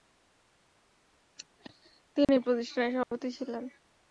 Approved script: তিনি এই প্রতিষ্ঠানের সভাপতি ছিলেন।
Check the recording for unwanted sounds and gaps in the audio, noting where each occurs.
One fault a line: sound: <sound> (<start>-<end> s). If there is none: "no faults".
sound: dropout (2.2-2.3 s)
sound: dropout (3.0-3.1 s)